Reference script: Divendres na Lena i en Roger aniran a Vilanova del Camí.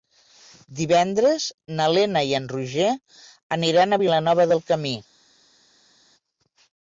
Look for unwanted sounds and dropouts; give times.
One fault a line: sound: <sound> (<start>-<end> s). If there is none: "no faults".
no faults